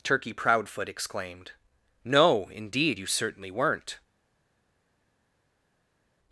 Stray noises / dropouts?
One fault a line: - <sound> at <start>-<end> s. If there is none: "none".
none